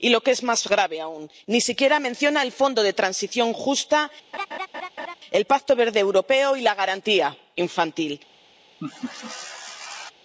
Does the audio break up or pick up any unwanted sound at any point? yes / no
yes